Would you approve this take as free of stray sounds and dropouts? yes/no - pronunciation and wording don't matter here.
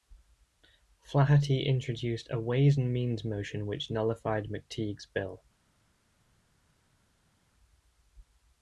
yes